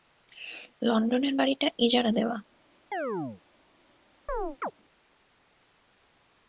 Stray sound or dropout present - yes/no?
yes